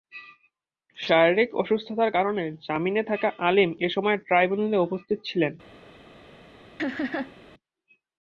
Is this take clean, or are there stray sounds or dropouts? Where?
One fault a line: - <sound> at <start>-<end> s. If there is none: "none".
- laugh at 6.8-7.4 s